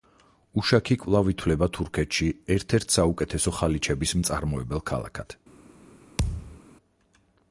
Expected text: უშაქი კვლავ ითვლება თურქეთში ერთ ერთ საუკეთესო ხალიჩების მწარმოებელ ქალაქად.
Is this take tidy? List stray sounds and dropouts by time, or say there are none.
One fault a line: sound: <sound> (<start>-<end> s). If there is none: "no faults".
sound: thud (6.2-6.6 s)